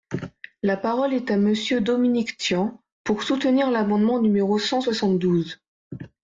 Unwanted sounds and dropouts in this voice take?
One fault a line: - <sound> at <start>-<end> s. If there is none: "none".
none